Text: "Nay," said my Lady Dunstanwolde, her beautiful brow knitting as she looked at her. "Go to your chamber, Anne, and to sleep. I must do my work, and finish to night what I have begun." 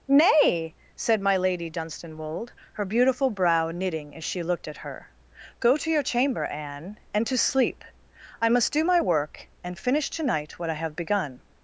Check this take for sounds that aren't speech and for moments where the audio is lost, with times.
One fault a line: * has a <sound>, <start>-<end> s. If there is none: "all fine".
all fine